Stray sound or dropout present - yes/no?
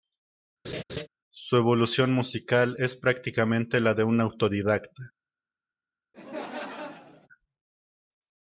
yes